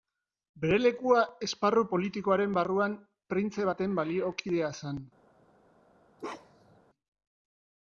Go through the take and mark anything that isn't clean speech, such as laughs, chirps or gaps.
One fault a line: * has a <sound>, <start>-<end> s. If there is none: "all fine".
* has a bark, 6.2-6.8 s